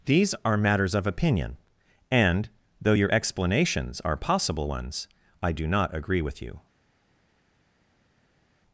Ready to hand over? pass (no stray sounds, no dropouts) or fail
pass